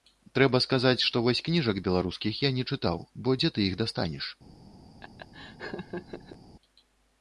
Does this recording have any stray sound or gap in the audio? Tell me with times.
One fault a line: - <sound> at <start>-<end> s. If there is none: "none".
- laugh at 5.0-6.4 s